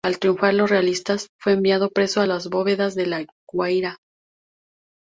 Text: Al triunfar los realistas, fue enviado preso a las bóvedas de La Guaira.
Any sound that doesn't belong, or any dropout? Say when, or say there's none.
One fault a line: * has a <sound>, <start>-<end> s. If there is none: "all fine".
all fine